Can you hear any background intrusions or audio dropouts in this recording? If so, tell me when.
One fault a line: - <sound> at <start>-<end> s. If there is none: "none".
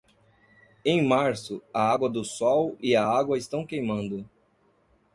none